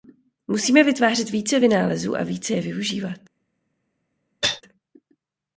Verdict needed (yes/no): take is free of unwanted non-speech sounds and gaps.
no